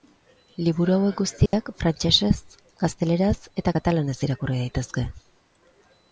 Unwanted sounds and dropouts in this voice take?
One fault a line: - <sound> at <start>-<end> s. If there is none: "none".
- dropout at 1.5-1.5 s